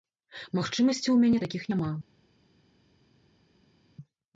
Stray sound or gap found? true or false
false